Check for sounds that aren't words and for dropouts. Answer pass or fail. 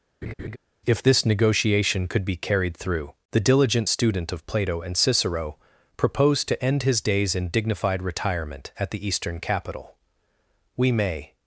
fail